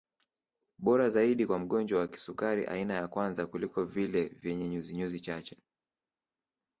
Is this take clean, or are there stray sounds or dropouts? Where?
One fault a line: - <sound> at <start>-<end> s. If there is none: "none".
none